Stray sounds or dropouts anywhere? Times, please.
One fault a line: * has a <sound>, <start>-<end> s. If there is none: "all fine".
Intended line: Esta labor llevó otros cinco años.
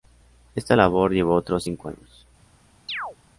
* has a chirp, 2.9-3.2 s